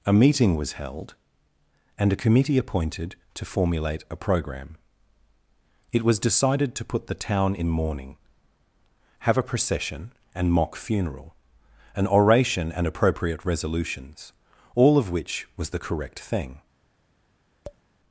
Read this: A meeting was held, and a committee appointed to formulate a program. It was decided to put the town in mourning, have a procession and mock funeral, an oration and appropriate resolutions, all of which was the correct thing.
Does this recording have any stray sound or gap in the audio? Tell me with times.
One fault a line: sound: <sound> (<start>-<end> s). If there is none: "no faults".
sound: tap (17.6-17.8 s)